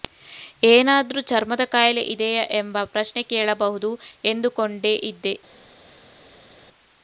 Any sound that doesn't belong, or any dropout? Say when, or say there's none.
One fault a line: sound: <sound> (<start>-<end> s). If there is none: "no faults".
no faults